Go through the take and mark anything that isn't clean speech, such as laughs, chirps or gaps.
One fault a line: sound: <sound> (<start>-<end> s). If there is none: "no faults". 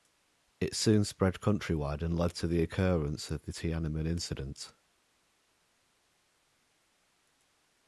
no faults